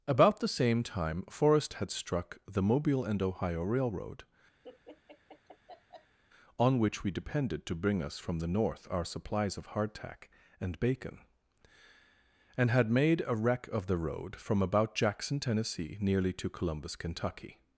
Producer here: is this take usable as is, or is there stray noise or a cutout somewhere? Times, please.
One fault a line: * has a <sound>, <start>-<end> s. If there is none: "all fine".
* has a laugh, 4.6-6.2 s